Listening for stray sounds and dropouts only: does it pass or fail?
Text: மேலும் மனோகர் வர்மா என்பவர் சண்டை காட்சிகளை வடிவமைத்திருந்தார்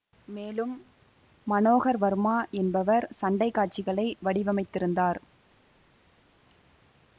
pass